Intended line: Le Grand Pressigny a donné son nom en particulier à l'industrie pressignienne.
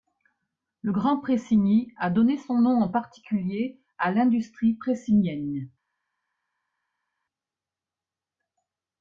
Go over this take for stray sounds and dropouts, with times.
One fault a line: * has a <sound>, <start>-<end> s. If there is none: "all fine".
all fine